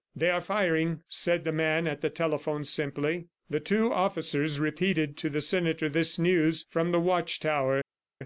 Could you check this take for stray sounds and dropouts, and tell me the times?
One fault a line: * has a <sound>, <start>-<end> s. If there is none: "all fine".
all fine